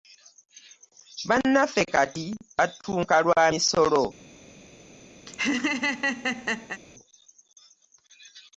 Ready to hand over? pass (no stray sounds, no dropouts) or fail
fail